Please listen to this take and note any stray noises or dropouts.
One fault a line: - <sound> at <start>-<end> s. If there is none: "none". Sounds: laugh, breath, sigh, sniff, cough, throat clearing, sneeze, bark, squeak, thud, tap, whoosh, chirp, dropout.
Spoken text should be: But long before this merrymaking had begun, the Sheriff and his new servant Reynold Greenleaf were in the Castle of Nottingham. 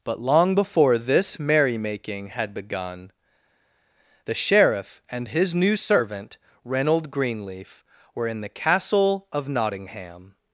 none